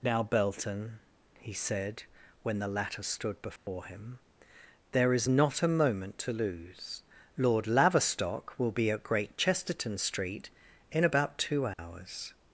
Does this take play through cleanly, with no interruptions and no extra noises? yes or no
no